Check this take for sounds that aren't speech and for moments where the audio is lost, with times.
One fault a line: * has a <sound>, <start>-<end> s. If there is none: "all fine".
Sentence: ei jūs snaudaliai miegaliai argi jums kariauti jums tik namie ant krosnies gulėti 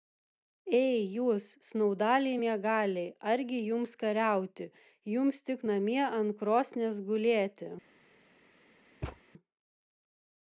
* has a thud, 9.0-9.2 s